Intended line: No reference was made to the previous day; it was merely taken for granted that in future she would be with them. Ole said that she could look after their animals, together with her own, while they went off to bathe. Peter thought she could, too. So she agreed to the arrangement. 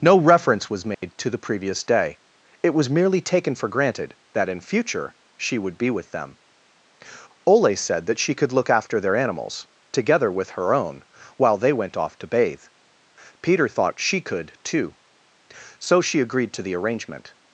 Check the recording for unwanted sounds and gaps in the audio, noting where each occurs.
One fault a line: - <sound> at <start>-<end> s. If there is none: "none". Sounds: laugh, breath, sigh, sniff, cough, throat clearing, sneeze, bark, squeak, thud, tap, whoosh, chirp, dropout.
- dropout at 0.9-1.0 s